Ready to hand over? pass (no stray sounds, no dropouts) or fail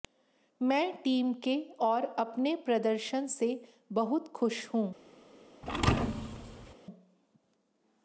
fail